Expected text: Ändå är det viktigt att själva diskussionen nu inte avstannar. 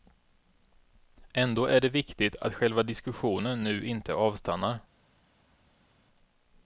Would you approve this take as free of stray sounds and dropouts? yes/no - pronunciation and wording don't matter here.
yes